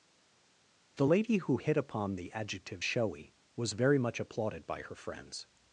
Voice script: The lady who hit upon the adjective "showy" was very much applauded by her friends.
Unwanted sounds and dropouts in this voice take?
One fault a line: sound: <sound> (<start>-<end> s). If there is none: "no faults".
no faults